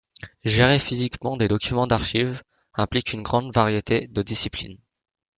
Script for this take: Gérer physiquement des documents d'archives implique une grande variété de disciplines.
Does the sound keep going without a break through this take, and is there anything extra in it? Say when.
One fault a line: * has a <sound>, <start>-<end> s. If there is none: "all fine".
all fine